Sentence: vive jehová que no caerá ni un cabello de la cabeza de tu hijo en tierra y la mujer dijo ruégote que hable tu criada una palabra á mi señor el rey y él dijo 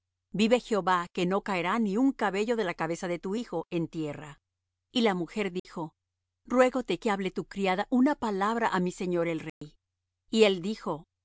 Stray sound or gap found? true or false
true